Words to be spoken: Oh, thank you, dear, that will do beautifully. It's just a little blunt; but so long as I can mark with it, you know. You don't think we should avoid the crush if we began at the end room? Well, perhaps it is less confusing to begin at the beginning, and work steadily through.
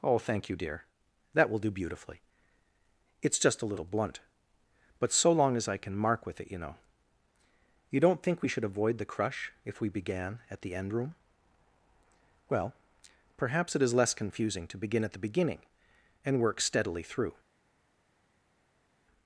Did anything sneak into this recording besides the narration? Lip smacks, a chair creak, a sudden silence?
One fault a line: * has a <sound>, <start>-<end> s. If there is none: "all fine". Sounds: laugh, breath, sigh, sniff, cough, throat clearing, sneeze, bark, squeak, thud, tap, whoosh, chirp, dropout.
all fine